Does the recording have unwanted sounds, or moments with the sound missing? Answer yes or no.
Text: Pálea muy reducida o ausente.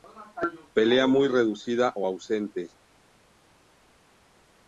no